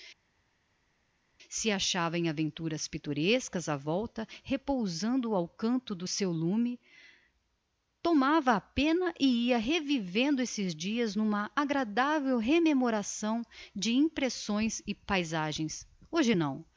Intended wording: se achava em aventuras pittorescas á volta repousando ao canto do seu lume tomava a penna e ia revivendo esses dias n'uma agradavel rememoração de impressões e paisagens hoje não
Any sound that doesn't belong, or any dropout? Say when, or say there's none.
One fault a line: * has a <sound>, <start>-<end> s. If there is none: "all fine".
all fine